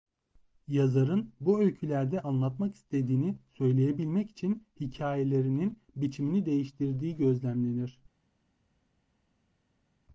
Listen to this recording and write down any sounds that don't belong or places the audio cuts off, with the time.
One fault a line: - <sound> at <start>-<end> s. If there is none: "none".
none